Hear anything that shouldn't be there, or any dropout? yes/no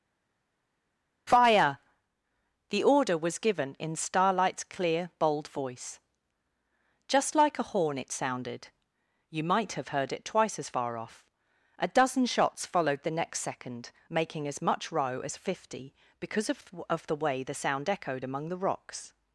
no